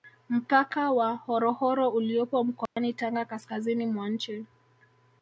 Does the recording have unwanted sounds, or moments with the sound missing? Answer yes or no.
yes